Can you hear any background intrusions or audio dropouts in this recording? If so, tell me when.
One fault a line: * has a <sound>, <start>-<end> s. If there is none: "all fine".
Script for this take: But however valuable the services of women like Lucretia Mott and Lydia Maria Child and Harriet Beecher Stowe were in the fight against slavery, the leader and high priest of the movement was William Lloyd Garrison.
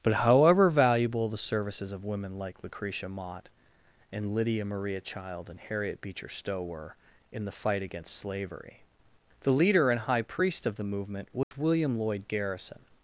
* has a dropout, 11.4-11.5 s